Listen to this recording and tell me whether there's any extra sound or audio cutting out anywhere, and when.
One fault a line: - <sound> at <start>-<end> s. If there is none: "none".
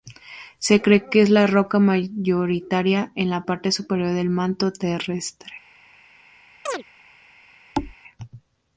- chirp at 6.7-6.8 s
- thud at 7.7-7.9 s